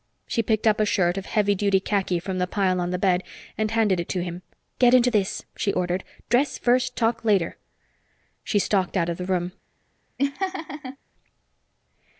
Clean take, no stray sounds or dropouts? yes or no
no